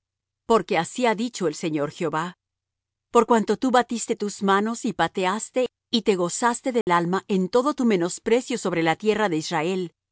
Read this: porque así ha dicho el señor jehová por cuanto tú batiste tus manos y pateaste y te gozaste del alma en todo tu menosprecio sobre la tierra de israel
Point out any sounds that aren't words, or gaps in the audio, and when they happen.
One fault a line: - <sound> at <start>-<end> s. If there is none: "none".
- dropout at 6.8-6.9 s